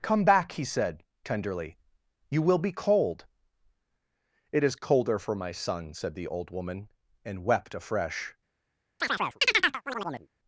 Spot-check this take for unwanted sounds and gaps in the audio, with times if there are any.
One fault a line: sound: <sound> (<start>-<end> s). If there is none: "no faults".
sound: chirp (9.0-10.3 s)